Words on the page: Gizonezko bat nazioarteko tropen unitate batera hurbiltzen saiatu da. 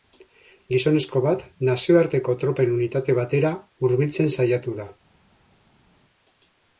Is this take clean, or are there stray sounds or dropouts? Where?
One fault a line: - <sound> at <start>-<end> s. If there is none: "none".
none